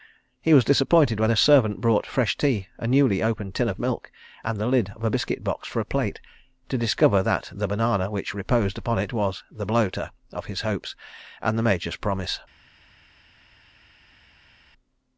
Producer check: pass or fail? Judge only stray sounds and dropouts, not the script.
pass